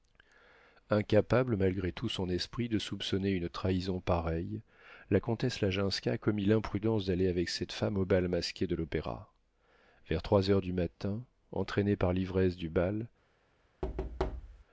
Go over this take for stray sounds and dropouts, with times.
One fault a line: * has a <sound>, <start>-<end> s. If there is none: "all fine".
* has a thud, 13.8-14.6 s